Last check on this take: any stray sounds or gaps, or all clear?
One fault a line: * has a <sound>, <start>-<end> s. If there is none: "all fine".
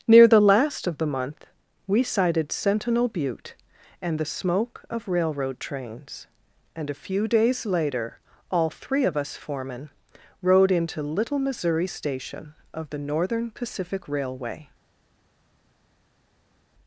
all fine